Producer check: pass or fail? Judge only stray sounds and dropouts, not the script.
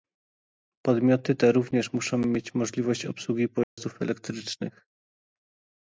fail